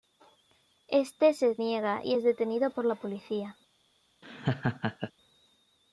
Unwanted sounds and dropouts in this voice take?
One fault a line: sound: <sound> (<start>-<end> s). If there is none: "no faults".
sound: laugh (4.2-5.1 s)